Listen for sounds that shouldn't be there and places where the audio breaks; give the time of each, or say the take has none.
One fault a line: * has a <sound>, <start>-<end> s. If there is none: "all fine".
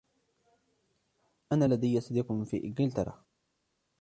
all fine